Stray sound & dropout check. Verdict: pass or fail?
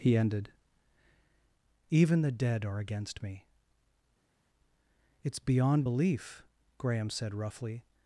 pass